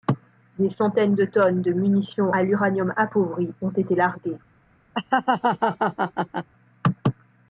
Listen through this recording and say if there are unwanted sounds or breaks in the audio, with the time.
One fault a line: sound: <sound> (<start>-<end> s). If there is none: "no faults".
sound: laugh (4.9-6.5 s)